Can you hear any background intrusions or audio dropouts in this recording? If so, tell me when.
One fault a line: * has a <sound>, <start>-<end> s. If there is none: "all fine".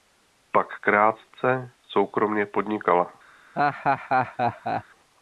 * has a laugh, 3.6-4.8 s